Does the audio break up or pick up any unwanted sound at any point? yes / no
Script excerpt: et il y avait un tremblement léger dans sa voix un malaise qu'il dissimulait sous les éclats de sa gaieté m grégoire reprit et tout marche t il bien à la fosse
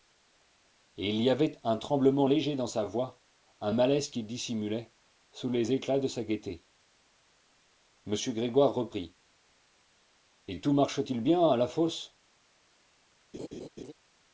yes